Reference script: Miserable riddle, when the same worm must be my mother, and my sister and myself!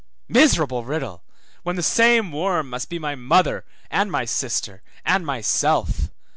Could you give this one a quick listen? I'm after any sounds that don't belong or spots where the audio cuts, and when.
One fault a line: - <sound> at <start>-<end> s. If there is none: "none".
none